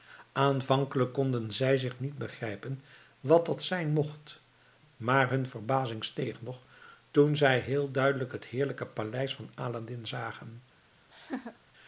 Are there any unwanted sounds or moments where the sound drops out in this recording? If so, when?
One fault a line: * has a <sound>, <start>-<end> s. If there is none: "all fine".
* has a laugh, 11.1-11.6 s